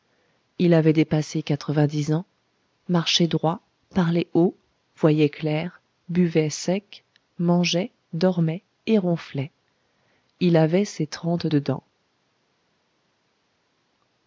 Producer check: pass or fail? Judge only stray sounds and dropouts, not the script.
pass